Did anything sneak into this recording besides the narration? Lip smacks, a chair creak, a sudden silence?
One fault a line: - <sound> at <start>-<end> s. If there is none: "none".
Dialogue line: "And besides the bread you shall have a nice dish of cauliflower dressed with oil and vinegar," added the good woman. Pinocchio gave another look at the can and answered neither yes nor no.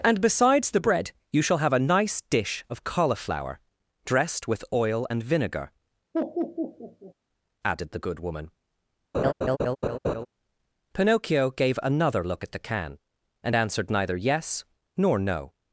- laugh at 6.1-7.1 s
- laugh at 9.1-10.3 s